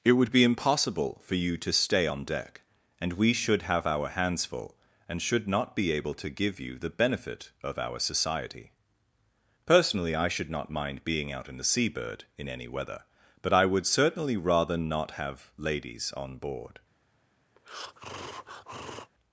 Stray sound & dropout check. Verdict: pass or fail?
fail